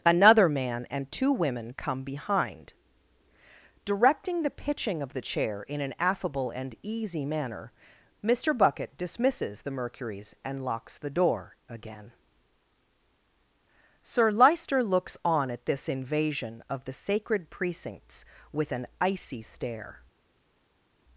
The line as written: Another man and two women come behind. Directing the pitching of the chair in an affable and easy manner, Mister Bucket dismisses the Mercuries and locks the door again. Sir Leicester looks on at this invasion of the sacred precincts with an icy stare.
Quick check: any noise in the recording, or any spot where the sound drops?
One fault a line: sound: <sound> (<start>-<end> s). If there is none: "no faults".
no faults